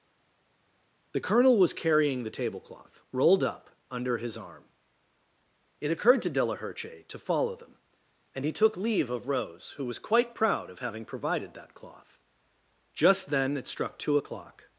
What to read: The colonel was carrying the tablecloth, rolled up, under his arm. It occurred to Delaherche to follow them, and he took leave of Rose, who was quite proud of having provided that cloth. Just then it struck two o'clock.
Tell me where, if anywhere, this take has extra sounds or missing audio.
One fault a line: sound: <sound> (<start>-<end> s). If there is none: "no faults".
no faults